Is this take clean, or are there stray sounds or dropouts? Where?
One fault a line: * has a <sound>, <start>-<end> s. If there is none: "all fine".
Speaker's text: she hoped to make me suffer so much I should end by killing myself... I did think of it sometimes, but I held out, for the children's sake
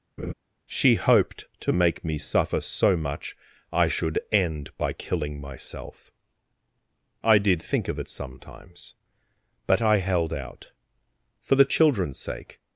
* has a laugh, 0.2-0.3 s